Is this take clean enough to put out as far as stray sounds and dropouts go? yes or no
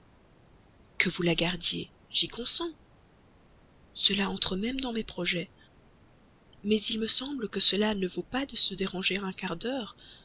yes